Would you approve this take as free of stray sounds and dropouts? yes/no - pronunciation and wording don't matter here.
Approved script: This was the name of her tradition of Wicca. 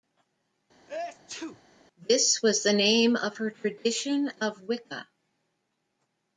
no